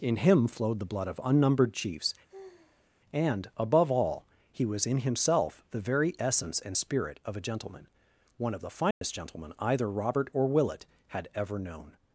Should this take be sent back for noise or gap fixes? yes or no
yes